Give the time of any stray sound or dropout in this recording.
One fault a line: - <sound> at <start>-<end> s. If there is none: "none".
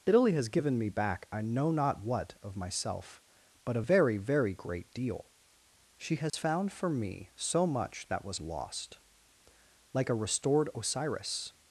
- dropout at 6.3-6.3 s